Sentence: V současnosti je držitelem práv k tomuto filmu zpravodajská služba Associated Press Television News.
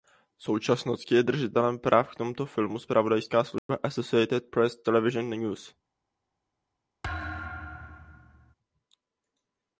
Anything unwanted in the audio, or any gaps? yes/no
yes